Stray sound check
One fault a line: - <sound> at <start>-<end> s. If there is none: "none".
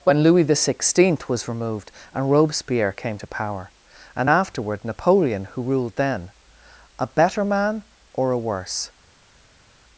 none